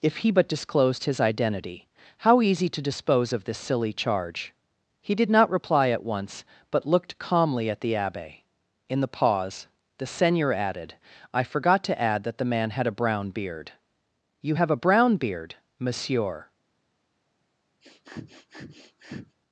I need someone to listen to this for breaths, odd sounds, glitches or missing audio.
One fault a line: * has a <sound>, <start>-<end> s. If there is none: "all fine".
* has a sniff, 17.8-19.4 s